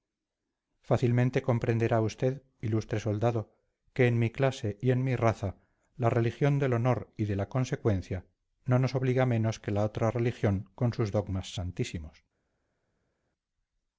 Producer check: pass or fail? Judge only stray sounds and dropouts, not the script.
pass